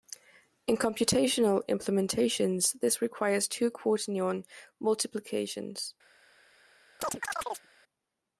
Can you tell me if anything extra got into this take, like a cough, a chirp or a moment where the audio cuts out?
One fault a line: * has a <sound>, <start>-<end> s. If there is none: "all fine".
* has a chirp, 7.0-7.7 s